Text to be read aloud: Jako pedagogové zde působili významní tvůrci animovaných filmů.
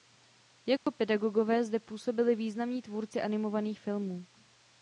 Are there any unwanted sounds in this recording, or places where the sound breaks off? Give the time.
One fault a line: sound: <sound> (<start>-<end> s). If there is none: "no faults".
sound: dropout (0.8-0.9 s)